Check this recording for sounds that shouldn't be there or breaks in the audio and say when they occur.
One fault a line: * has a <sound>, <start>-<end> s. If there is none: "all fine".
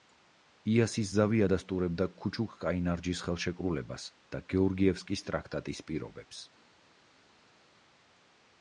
all fine